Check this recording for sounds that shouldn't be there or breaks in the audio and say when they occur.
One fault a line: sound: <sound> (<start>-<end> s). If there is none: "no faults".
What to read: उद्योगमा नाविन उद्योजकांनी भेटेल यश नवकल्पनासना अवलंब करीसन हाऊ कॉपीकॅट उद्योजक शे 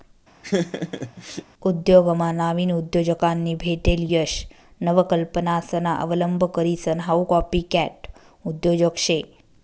sound: laugh (0.4-1.4 s)